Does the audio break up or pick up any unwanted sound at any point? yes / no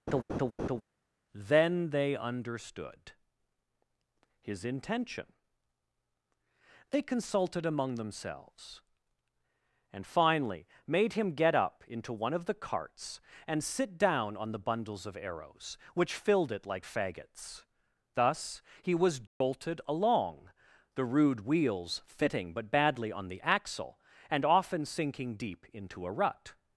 yes